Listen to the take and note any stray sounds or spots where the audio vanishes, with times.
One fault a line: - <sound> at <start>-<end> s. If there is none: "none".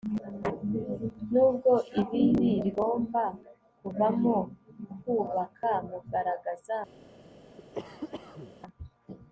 - cough at 7.6-8.5 s